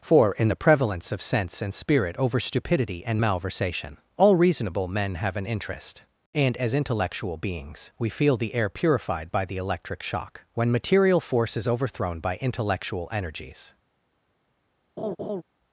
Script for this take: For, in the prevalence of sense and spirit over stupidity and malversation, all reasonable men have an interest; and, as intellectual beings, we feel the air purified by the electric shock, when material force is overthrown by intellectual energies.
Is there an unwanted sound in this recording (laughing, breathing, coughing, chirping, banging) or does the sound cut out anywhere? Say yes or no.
yes